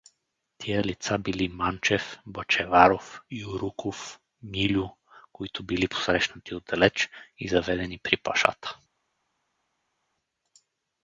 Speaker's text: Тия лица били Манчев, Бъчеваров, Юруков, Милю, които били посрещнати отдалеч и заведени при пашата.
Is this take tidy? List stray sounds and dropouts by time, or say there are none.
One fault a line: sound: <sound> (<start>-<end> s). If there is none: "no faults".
no faults